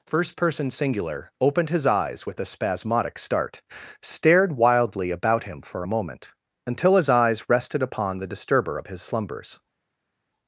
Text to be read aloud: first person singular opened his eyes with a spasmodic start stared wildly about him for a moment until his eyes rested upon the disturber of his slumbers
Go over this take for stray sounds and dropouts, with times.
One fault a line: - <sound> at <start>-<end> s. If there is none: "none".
none